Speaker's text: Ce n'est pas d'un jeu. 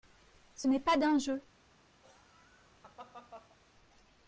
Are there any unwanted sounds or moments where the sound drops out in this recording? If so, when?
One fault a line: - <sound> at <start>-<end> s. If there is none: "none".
- laugh at 2.0-3.6 s